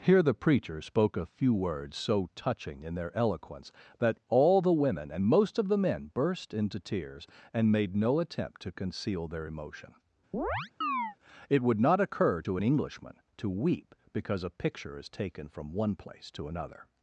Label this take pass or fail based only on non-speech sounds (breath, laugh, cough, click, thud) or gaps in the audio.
fail